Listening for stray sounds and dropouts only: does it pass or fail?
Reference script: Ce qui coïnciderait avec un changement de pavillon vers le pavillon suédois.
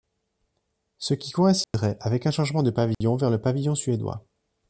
fail